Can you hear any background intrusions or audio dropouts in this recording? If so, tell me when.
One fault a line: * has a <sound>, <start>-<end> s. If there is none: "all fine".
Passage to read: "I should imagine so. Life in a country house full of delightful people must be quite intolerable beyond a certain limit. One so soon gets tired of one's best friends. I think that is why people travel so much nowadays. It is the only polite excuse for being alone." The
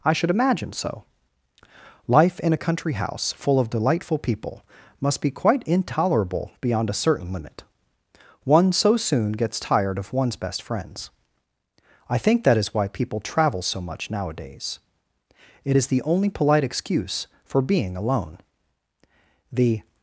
all fine